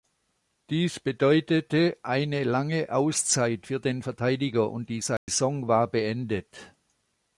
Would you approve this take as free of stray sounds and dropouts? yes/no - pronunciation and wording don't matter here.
no